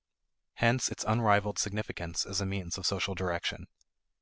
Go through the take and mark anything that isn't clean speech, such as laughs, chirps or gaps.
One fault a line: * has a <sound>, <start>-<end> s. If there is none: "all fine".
all fine